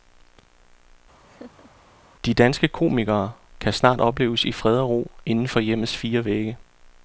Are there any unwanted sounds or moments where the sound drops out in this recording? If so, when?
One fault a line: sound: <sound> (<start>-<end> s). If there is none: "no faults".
sound: laugh (1.2-1.7 s)